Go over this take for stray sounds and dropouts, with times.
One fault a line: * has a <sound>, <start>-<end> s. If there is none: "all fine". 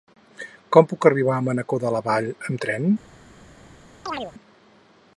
* has a chirp, 4.1-4.3 s